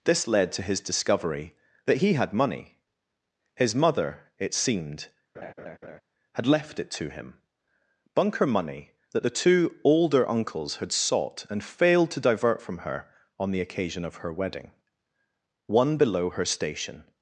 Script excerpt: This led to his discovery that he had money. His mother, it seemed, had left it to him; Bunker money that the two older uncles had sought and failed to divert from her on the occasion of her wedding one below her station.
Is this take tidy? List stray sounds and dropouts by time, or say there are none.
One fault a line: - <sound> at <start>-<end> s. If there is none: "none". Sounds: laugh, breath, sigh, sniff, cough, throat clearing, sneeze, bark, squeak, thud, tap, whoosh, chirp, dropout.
- laugh at 5.3-6.0 s